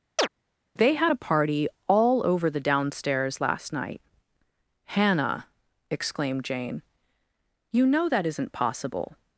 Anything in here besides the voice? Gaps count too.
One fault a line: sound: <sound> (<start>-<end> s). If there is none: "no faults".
sound: chirp (0.2-0.3 s)